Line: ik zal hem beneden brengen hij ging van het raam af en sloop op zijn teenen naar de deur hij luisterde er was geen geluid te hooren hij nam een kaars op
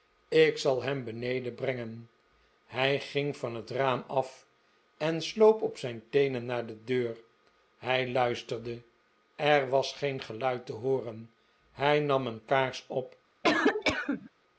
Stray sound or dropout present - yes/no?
yes